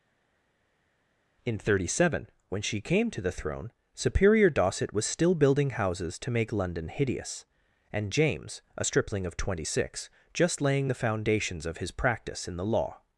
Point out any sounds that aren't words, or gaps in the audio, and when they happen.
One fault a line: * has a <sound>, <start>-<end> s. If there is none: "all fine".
all fine